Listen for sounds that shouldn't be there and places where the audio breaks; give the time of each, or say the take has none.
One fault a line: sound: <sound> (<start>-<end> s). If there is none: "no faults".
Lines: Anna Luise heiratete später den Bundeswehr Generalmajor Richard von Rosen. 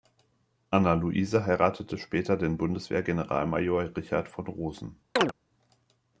sound: chirp (5.2-5.3 s)